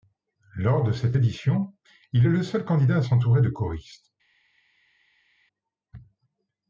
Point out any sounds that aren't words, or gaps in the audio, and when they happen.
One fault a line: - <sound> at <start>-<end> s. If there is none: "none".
none